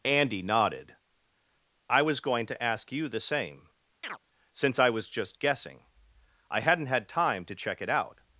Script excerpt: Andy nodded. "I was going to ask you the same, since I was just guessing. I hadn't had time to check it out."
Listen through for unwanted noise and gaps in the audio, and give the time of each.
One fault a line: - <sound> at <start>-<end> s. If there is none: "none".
- chirp at 4.0-4.2 s